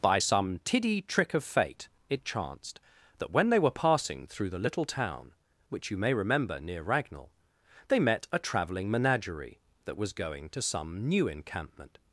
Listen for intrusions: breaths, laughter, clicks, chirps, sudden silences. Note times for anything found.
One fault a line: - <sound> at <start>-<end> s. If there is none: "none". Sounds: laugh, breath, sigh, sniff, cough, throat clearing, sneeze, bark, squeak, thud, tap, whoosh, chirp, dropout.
none